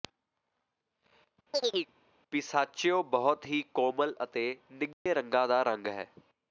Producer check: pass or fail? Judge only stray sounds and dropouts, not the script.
fail